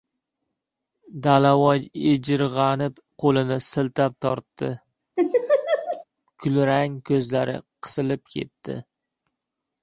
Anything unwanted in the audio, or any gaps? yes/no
yes